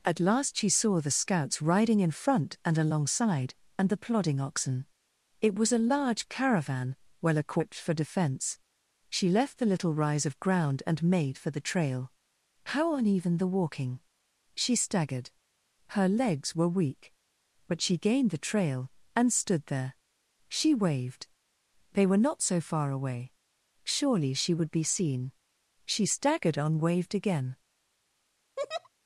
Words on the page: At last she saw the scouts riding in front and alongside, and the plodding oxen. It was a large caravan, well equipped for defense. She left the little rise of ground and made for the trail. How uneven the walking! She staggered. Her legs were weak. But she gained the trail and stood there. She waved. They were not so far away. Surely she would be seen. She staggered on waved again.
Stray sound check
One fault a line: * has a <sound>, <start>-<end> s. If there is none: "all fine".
* has a laugh, 28.6-28.9 s